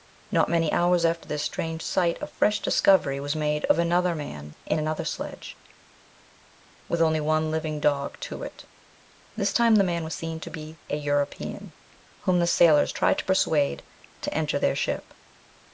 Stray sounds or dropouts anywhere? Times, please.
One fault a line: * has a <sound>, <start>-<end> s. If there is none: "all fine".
all fine